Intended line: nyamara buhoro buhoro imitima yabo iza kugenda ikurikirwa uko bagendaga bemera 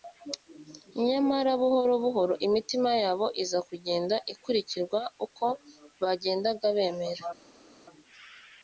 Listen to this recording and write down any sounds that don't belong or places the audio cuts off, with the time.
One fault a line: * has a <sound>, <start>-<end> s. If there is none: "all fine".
all fine